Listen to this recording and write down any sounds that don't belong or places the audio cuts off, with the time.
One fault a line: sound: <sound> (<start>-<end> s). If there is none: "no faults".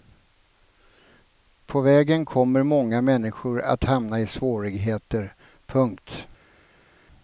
no faults